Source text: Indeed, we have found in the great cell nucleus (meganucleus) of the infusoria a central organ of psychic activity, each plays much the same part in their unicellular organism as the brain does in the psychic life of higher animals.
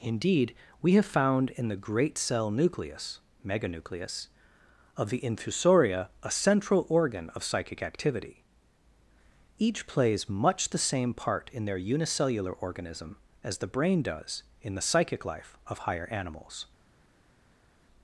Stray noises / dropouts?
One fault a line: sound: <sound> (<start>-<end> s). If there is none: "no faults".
no faults